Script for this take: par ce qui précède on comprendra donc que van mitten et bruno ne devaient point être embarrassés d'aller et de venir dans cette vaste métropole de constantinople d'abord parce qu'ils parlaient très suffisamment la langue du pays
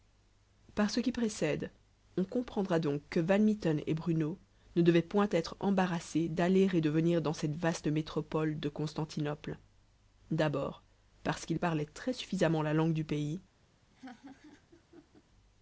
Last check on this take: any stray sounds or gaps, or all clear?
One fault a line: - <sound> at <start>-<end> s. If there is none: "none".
- laugh at 13.9-15.2 s